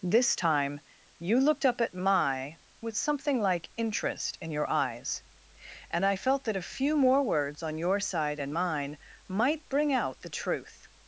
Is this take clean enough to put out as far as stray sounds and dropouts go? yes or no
yes